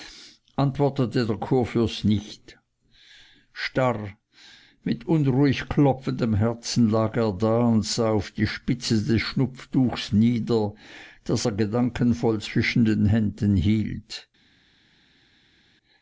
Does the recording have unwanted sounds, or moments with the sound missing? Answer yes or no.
no